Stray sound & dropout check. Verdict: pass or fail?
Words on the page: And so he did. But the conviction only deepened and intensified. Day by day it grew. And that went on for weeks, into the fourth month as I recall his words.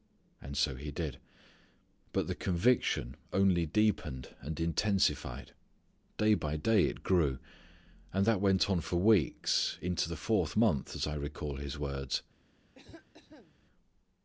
fail